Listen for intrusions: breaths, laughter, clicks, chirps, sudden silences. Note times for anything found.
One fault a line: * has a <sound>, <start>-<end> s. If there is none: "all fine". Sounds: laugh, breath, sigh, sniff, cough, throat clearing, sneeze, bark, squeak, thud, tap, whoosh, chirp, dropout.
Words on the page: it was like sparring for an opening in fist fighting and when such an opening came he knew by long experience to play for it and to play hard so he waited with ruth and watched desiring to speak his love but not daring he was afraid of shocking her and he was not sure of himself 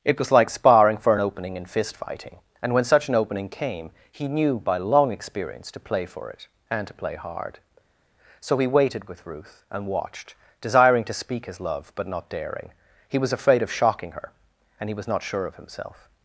all fine